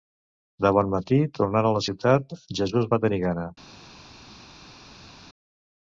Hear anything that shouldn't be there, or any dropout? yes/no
no